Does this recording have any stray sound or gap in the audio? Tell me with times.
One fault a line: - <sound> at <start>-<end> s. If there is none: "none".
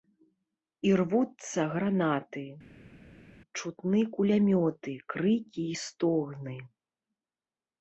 none